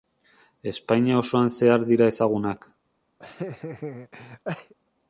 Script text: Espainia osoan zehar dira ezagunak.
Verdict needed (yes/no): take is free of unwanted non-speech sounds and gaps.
no